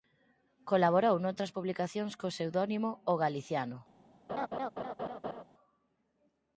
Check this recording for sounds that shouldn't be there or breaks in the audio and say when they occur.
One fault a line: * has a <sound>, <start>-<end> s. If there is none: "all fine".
* has a laugh, 4.3-5.4 s